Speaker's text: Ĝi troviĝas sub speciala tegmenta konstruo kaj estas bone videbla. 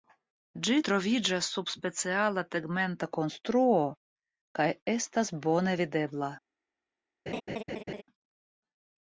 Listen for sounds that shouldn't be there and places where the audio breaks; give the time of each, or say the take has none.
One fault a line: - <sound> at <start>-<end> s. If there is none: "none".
- laugh at 7.3-8.0 s